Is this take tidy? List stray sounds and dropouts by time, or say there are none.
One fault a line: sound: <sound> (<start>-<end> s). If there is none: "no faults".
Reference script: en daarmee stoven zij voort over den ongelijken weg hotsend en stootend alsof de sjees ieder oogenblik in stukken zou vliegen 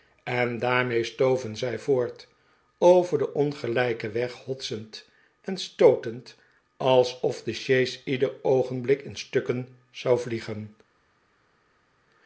no faults